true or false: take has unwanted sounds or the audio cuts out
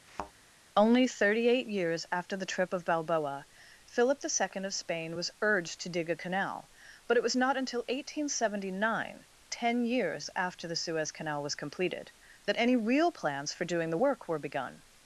true